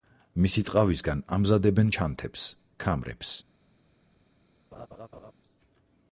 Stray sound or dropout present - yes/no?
yes